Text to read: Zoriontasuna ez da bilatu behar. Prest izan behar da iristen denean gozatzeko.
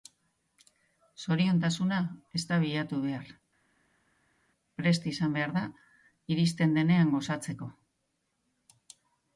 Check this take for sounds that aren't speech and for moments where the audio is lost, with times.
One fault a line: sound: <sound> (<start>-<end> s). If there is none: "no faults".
no faults